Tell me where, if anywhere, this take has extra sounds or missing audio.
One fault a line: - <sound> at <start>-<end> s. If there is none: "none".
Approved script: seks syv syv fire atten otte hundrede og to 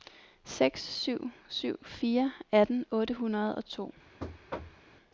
- thud at 4.2-4.9 s